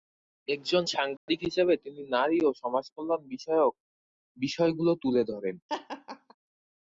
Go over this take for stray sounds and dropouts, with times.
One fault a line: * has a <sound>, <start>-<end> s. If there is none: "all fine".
* has a dropout, 1.2-1.3 s
* has a laugh, 5.7-6.4 s